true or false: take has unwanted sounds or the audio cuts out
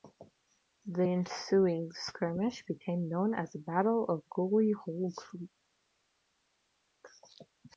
false